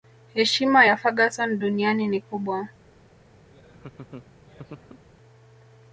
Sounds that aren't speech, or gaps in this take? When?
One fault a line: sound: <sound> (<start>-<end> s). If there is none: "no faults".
sound: laugh (3.5-5.0 s)